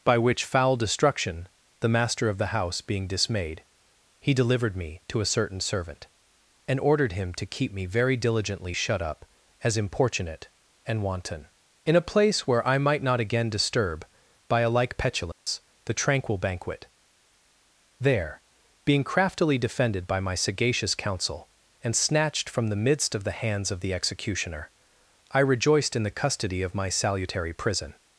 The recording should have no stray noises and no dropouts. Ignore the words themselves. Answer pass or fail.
fail